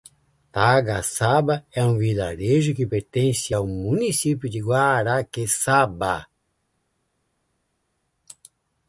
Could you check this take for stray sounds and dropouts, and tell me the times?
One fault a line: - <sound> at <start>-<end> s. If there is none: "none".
none